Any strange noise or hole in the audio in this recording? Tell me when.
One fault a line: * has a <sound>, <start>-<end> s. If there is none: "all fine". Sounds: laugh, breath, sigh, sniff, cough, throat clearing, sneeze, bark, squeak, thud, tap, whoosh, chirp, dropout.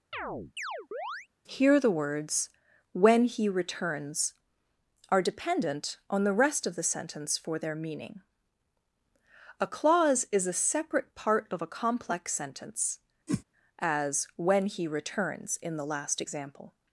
* has a chirp, 0.1-1.3 s
* has a whoosh, 13.3-13.4 s